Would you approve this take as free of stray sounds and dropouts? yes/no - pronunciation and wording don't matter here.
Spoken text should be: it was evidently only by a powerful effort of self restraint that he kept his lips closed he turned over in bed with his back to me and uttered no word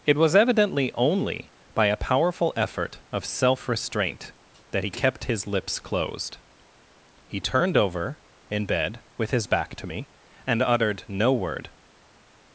yes